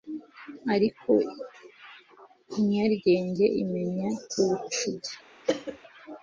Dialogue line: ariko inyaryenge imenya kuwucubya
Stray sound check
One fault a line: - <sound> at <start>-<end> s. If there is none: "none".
- cough at 5.4-5.8 s